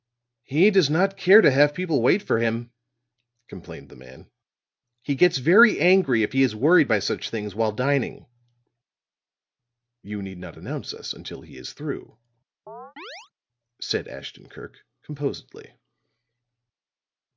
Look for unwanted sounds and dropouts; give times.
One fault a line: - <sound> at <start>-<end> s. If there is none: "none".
- chirp at 12.7-13.3 s